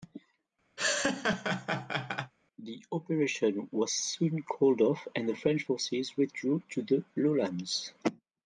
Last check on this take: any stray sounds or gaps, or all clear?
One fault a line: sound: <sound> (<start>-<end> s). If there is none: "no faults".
sound: laugh (0.8-2.3 s)